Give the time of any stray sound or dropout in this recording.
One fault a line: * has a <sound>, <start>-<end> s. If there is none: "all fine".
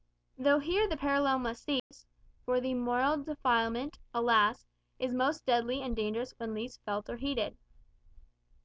* has a dropout, 1.8-1.9 s